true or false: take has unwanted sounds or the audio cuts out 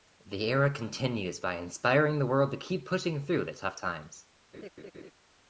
true